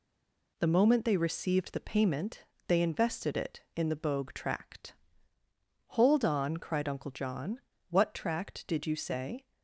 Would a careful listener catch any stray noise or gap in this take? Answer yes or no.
no